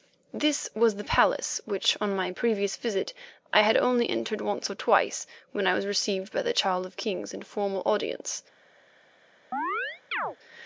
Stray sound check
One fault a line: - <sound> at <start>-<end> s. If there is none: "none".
- chirp at 9.5-10.4 s